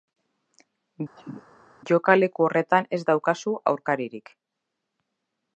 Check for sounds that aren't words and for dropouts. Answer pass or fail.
fail